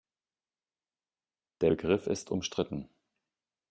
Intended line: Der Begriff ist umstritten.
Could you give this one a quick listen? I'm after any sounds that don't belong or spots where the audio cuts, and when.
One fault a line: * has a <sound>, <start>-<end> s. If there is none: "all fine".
all fine